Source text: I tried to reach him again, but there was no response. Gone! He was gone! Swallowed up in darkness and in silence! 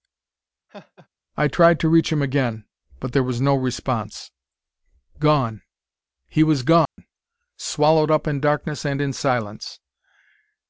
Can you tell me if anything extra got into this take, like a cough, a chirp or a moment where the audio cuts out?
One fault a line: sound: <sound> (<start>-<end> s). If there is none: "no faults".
sound: laugh (0.7-1.1 s)
sound: dropout (6.9-7.0 s)